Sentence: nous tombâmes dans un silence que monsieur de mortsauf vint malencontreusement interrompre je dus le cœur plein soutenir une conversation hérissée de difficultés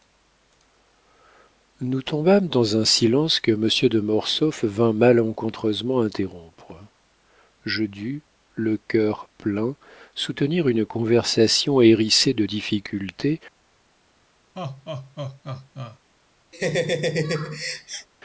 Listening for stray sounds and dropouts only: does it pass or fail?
fail